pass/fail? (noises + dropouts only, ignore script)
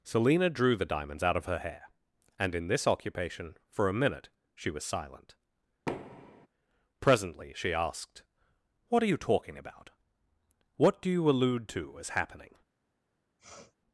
fail